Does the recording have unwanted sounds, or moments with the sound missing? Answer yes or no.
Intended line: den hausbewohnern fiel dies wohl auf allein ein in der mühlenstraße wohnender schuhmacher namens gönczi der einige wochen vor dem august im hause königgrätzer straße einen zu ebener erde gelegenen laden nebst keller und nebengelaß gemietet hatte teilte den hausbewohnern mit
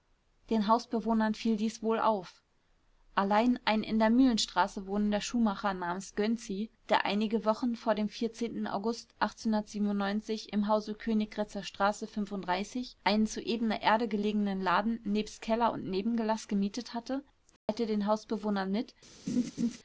yes